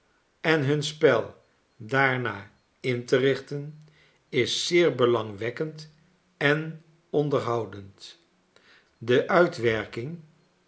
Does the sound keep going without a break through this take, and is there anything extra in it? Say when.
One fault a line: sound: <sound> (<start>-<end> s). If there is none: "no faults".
no faults